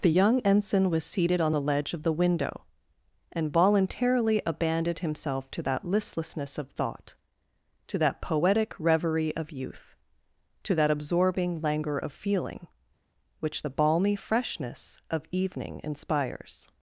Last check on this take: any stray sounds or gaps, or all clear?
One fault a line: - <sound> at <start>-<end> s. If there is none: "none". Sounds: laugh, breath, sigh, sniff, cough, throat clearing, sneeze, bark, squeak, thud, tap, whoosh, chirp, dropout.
none